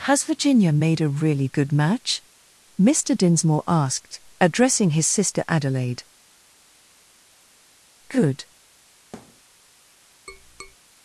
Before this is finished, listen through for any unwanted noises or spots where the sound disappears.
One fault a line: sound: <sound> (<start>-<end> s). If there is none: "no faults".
sound: thud (9.1-9.4 s)
sound: tap (10.3-10.8 s)